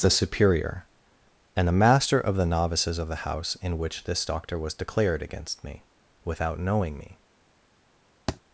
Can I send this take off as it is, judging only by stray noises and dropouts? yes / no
no